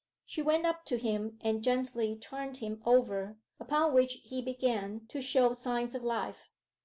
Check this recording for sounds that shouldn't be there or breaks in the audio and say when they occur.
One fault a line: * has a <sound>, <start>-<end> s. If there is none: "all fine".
all fine